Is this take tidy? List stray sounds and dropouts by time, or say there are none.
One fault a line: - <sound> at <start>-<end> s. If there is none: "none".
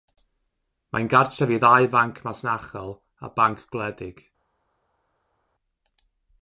none